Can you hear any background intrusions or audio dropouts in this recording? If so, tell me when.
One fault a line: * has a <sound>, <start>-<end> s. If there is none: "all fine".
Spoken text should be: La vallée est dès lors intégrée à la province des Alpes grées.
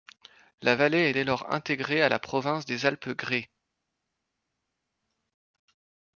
all fine